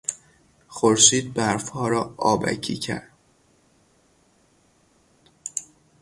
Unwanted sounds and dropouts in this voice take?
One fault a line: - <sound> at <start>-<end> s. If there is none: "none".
none